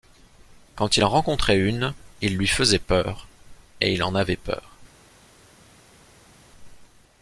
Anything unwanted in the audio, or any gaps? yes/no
no